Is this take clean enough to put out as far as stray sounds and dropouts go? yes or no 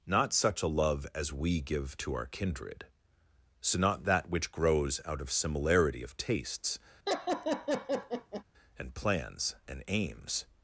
no